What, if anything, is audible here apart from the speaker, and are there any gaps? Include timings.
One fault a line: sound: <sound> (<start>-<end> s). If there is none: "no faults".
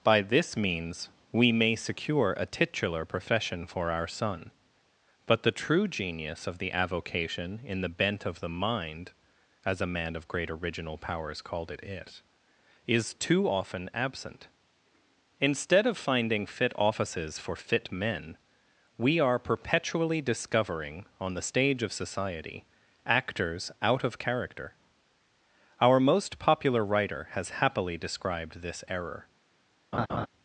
sound: laugh (29.9-30.3 s)